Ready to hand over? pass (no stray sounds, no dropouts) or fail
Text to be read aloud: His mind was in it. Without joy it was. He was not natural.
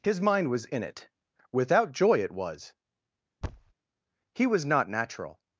fail